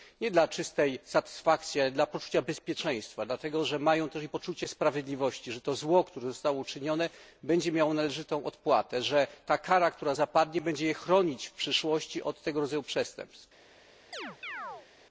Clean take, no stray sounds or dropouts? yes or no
no